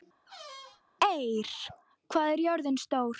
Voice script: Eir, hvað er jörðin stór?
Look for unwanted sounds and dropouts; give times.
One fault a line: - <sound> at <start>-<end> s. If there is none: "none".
- squeak at 0.3-0.8 s